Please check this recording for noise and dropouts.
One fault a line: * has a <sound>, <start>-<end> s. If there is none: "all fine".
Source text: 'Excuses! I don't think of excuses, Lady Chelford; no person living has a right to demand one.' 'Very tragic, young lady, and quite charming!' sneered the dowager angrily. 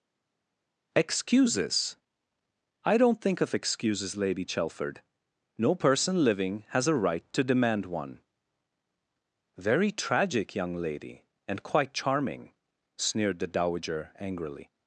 all fine